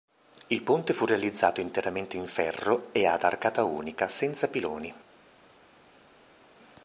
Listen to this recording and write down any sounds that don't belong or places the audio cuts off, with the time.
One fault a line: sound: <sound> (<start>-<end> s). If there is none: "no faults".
no faults